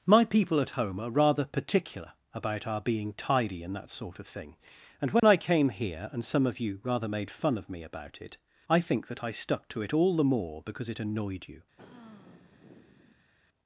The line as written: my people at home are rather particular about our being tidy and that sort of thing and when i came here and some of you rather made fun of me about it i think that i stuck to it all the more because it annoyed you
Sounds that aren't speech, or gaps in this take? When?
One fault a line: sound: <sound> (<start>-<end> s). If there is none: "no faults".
sound: dropout (5.2-5.2 s)
sound: sigh (11.8-13.3 s)